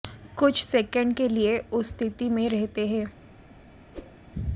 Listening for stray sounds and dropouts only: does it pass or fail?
fail